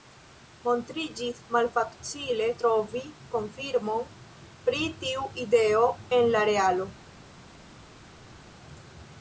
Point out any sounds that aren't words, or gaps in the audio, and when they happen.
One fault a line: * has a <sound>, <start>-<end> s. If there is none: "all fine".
all fine